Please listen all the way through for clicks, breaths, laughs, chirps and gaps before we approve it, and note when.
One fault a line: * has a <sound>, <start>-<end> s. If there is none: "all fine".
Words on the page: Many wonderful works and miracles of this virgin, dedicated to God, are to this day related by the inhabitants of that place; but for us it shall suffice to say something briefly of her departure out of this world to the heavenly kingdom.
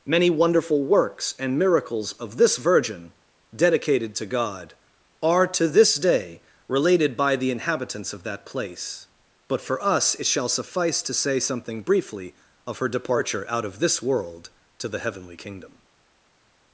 all fine